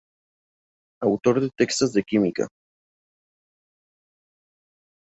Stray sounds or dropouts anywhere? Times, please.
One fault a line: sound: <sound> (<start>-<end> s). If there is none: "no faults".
no faults